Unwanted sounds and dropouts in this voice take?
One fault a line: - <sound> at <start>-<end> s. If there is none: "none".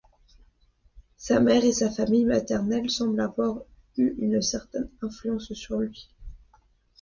none